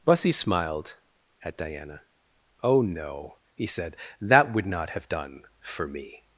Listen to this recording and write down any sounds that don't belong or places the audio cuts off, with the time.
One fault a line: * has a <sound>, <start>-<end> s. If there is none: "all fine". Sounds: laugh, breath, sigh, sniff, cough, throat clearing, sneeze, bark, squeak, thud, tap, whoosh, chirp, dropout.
all fine